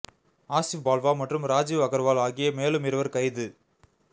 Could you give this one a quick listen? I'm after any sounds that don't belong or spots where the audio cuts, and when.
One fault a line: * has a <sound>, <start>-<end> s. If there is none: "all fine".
all fine